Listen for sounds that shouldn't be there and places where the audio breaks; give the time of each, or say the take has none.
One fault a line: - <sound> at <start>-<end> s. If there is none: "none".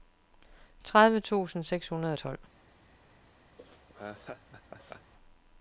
- laugh at 3.6-5.1 s